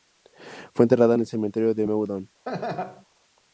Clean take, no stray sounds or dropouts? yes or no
no